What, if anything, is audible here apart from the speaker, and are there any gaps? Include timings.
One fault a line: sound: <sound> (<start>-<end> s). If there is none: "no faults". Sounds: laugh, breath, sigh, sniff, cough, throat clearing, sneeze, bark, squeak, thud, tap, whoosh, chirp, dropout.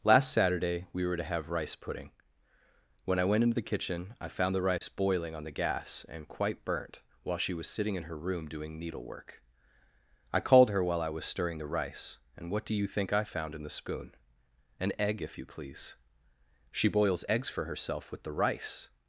sound: dropout (4.8-4.8 s)